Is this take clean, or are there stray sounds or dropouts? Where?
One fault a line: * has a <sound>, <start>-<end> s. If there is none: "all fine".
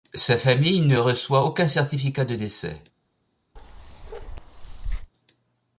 * has a bark, 3.6-5.1 s